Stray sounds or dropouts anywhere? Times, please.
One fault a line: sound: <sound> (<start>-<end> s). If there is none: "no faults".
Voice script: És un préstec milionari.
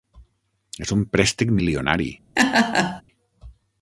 sound: laugh (2.4-3.0 s)